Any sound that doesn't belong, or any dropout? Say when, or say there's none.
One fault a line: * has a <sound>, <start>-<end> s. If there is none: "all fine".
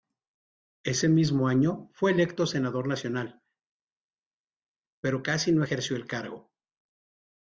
all fine